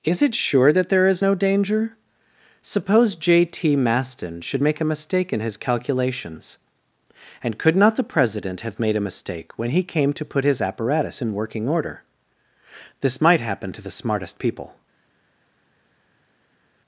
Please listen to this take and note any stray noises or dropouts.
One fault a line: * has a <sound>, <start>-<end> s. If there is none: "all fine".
all fine